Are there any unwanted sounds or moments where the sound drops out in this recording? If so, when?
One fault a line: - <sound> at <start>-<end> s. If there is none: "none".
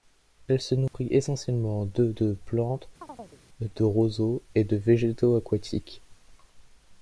- dropout at 0.9-0.9 s
- chirp at 3.0-3.4 s